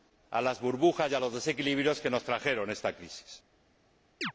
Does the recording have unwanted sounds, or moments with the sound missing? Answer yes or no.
yes